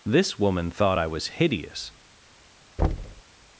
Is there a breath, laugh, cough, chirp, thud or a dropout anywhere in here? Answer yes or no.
yes